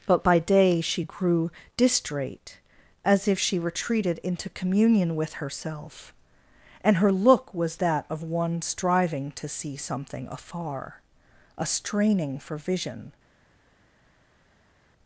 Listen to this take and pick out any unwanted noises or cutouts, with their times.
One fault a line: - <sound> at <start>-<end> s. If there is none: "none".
none